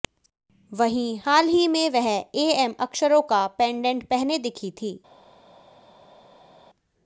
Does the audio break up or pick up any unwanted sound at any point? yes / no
no